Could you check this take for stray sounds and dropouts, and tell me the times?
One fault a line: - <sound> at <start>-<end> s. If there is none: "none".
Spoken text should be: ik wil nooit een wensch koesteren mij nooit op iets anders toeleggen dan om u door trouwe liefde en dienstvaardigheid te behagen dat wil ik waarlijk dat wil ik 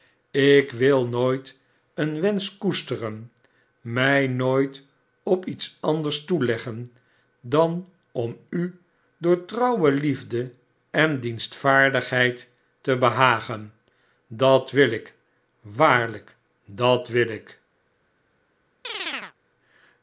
- chirp at 18.8-19.3 s